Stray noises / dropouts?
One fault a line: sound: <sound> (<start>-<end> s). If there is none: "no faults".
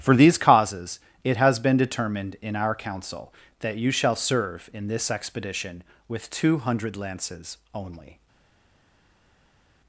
no faults